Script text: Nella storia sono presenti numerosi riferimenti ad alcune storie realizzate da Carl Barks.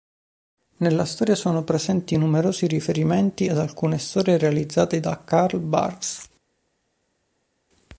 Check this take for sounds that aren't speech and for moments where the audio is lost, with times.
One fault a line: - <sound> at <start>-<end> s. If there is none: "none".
none